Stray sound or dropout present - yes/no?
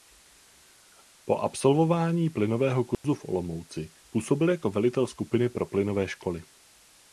yes